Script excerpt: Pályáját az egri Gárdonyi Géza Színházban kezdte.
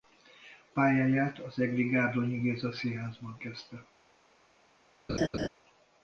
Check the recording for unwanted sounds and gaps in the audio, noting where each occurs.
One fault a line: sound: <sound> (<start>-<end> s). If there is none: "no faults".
sound: laugh (5.1-5.5 s)